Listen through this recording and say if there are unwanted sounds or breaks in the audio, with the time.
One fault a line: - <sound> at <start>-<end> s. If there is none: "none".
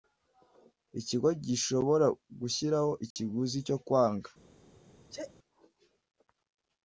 - dropout at 3.1-3.2 s
- sneeze at 5.1-5.3 s